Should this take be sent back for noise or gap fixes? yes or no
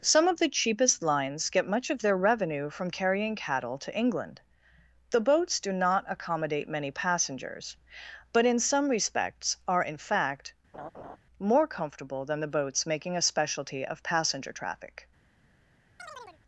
yes